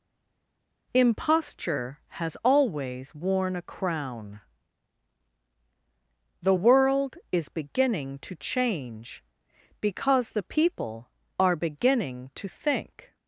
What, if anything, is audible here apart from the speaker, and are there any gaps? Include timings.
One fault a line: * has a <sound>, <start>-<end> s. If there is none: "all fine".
all fine